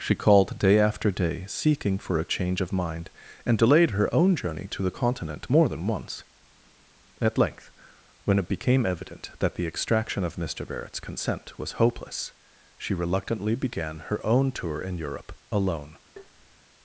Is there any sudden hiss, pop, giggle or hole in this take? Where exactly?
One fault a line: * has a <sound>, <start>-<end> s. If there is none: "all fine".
* has a tap, 16.2-16.6 s